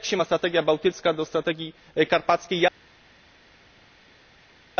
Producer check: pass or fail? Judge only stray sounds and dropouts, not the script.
pass